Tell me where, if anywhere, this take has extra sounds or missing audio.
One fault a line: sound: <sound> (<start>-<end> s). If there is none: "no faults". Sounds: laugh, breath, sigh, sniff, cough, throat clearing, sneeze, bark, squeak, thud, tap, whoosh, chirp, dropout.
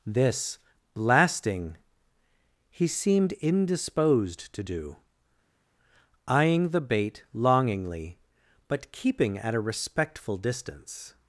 no faults